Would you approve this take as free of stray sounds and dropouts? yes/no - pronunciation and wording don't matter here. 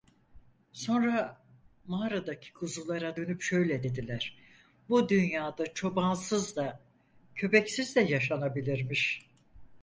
yes